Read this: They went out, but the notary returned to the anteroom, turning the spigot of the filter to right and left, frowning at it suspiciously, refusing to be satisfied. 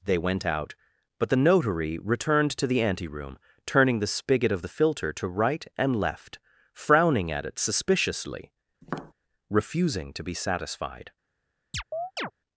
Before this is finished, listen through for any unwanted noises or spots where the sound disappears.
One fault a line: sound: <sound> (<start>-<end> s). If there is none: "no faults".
sound: tap (8.8-9.1 s)
sound: chirp (11.7-12.3 s)